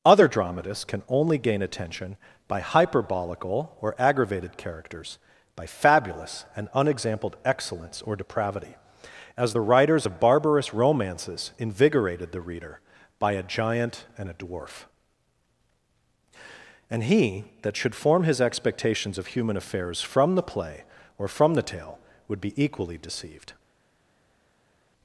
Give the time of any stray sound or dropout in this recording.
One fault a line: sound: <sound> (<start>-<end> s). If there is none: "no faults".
no faults